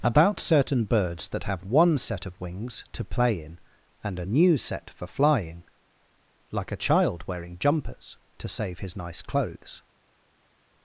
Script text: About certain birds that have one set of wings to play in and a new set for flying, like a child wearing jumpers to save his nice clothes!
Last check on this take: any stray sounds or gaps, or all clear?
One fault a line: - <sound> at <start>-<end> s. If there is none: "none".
none